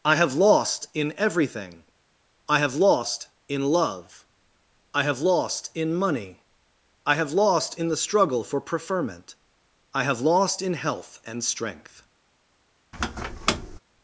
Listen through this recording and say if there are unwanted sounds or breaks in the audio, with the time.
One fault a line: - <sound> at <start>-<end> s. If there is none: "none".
- squeak at 12.9-13.8 s